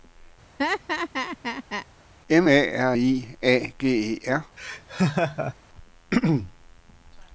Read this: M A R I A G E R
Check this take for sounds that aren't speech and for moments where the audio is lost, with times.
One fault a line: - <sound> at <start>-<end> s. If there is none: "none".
- laugh at 0.6-1.9 s
- laugh at 4.6-5.5 s